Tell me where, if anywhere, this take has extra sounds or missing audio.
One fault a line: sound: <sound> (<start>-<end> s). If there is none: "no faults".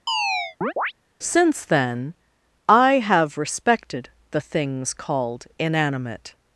sound: chirp (0.1-0.9 s)